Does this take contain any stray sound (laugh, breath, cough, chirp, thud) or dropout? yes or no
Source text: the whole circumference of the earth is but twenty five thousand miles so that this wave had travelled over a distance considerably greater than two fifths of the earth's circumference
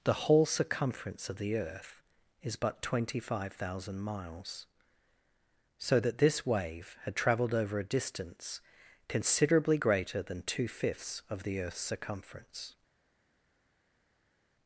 no